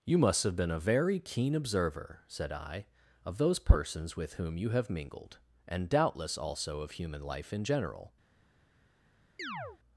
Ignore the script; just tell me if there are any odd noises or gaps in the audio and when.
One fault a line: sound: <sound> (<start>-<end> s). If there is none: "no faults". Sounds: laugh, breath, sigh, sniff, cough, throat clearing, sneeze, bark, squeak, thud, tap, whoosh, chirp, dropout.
sound: chirp (9.4-9.8 s)